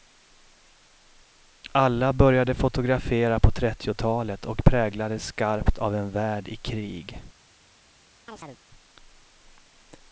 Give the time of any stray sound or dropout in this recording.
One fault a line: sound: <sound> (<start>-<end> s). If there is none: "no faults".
sound: chirp (8.3-8.6 s)